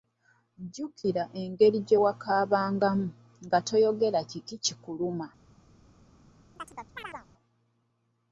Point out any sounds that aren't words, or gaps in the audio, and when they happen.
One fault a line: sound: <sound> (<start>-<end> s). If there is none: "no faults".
sound: chirp (6.6-7.3 s)